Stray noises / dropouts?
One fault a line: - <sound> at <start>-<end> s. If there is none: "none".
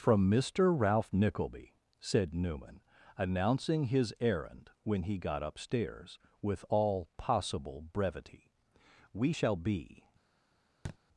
- thud at 10.8-11.0 s